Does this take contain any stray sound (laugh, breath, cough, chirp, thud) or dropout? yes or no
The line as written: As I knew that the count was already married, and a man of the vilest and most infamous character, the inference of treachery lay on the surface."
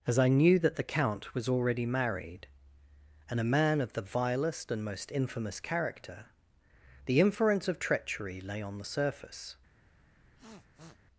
yes